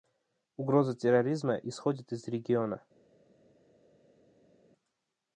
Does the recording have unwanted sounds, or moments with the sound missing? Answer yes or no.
no